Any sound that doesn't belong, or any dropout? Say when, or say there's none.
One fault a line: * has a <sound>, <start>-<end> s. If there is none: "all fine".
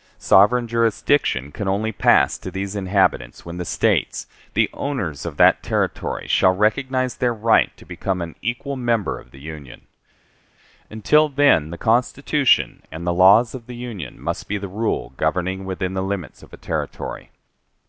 all fine